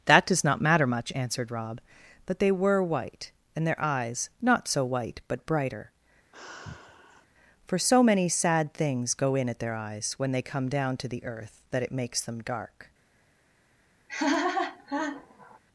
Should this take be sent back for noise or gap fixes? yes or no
yes